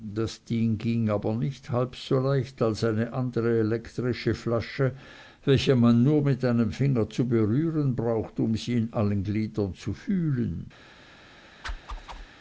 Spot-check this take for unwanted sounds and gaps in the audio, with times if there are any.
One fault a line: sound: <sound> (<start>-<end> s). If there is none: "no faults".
sound: whoosh (11.6-12.3 s)